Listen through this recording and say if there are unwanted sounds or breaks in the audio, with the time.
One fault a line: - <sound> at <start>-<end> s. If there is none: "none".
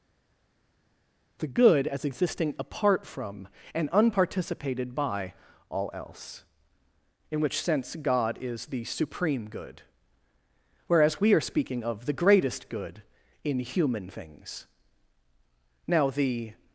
none